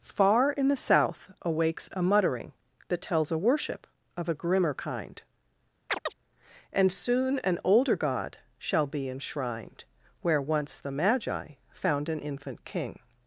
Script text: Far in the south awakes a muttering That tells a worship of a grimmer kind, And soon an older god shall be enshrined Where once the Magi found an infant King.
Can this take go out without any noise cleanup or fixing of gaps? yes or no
no